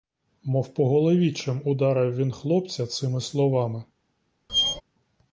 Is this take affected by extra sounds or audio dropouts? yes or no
yes